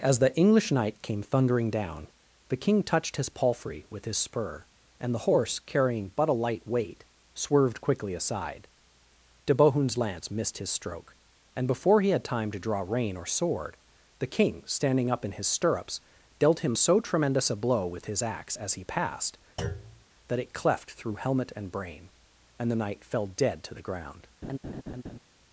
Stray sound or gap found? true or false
true